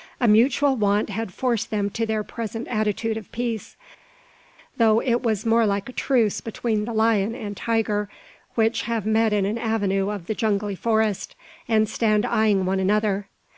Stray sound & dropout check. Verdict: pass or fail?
pass